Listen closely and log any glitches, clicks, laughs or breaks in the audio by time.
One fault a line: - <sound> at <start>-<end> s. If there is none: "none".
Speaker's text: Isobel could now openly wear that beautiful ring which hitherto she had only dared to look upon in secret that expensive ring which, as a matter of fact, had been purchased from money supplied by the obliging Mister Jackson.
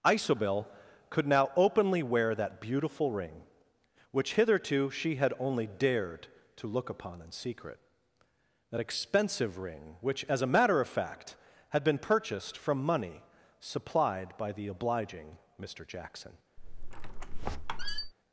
- squeak at 16.6-18.1 s